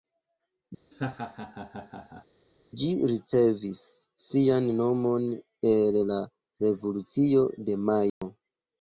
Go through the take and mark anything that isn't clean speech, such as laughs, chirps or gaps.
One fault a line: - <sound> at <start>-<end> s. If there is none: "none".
- laugh at 0.9-2.3 s
- dropout at 8.1-8.2 s